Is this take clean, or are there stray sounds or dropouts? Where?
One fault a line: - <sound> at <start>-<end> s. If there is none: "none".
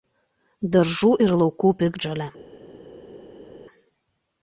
none